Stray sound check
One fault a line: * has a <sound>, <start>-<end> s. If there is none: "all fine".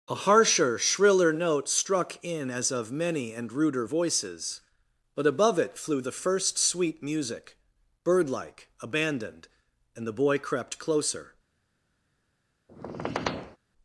* has a squeak, 12.7-13.6 s